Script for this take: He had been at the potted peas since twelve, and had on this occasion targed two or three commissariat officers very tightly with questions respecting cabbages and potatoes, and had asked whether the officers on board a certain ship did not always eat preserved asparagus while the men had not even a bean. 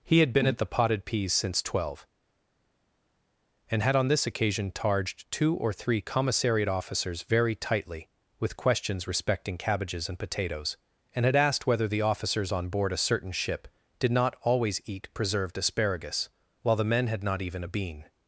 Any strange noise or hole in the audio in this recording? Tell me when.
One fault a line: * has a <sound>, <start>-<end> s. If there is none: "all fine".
all fine